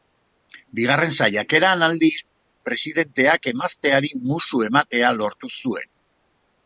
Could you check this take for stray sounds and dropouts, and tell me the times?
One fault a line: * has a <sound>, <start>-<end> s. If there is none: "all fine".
all fine